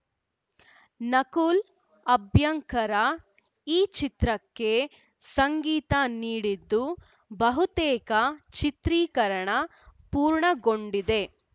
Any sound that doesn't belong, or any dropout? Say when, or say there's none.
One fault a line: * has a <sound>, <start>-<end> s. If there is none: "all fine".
all fine